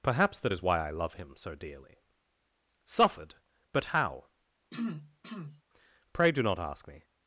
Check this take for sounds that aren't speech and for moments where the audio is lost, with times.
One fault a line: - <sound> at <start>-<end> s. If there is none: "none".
- throat clearing at 4.7-5.6 s